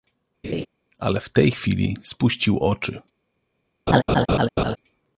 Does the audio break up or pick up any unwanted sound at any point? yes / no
yes